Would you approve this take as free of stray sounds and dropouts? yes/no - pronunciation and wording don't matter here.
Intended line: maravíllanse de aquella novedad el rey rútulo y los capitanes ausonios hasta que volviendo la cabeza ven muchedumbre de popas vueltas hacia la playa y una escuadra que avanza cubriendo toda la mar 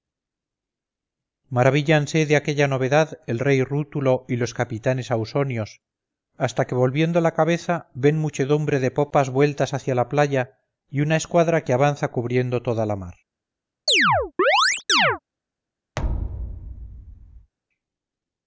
no